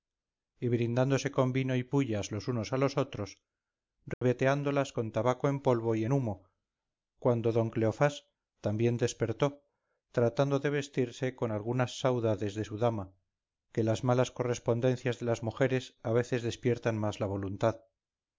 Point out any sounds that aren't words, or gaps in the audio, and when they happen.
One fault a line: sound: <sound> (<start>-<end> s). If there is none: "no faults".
sound: dropout (4.1-4.2 s)